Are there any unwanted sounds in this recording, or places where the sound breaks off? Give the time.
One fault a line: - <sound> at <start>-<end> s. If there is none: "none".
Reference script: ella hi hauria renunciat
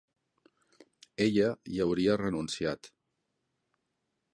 none